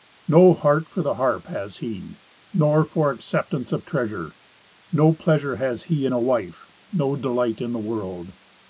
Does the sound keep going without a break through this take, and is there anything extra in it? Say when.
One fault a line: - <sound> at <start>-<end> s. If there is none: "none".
none